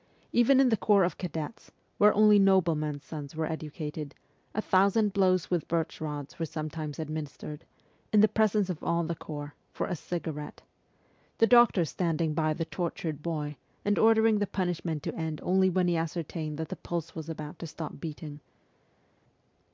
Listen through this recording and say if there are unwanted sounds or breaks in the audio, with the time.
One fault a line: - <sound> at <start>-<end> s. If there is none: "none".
none